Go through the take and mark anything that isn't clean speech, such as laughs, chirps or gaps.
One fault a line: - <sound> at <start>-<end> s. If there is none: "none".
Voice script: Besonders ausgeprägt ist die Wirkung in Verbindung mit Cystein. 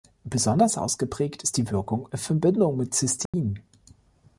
- dropout at 3.3-3.3 s